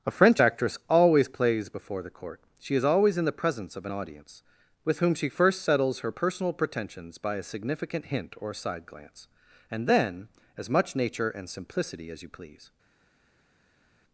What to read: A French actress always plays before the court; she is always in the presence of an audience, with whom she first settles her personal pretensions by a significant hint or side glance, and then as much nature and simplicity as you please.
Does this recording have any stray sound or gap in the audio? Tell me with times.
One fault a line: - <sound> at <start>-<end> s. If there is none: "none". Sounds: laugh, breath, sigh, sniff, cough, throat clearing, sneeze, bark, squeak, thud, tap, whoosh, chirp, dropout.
none